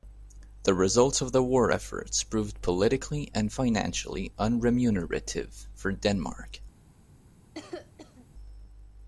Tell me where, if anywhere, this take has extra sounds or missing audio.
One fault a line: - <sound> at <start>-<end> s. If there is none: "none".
- cough at 7.5-8.3 s